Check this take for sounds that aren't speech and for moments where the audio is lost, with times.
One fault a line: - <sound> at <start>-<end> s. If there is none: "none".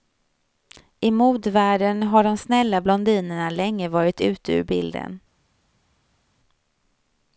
none